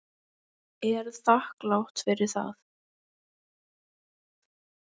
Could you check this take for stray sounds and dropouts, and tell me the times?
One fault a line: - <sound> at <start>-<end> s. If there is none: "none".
none